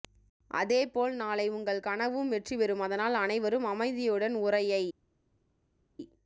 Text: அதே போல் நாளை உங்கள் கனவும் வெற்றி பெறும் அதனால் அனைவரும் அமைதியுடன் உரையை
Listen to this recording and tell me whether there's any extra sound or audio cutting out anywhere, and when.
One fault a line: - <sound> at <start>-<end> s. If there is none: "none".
none